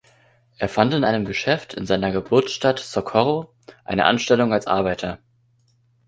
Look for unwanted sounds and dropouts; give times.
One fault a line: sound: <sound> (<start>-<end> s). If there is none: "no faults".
no faults